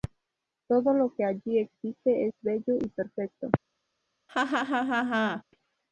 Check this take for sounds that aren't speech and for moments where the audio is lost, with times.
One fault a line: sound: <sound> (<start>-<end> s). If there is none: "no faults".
sound: laugh (4.3-5.4 s)